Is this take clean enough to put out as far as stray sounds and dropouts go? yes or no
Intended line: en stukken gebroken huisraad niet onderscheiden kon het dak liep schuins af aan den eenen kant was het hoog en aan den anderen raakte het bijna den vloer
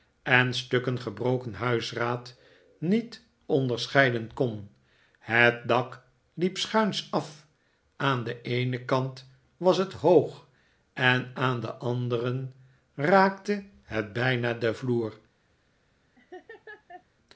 no